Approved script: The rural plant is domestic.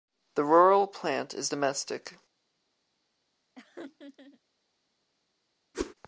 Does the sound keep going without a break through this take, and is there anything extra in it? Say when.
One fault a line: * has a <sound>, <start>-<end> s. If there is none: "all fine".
* has a laugh, 3.6-4.4 s
* has a whoosh, 5.7-5.9 s